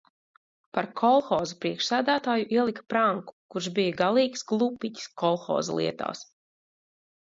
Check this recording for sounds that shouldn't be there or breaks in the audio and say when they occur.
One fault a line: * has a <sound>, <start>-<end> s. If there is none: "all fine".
all fine